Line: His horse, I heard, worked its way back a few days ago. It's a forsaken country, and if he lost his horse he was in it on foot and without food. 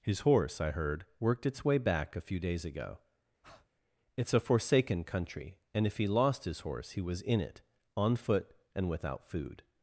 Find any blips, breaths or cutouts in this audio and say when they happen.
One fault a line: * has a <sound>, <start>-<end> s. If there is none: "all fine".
* has a breath, 3.4-3.7 s